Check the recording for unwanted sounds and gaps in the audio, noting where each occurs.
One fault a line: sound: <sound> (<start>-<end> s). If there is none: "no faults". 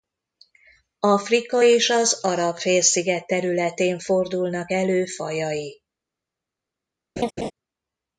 sound: laugh (7.2-7.5 s)